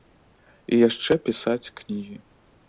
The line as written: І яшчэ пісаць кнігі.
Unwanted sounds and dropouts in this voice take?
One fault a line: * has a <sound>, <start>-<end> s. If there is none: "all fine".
all fine